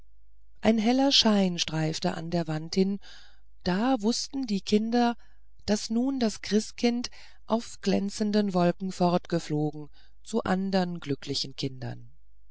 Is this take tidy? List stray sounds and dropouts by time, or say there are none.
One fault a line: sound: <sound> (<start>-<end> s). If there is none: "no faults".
no faults